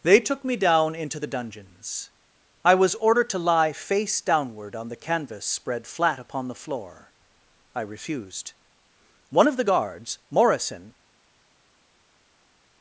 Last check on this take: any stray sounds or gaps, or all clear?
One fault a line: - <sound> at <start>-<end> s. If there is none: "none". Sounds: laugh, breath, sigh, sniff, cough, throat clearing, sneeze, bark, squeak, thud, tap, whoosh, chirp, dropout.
none